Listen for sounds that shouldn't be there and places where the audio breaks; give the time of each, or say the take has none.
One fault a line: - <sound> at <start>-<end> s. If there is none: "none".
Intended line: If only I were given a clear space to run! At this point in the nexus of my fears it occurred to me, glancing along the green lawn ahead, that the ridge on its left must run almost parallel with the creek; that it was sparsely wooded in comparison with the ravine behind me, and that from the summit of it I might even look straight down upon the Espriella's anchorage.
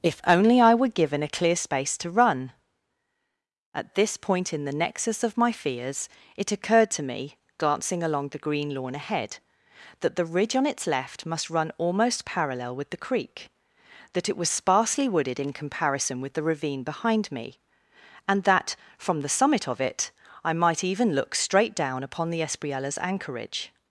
none